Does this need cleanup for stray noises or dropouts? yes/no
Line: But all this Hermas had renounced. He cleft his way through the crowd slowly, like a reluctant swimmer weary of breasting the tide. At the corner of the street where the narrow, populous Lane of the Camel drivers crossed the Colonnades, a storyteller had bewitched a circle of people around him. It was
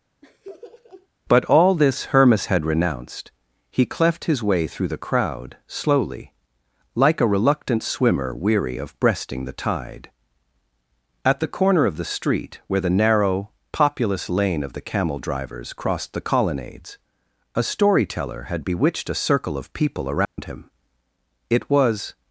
yes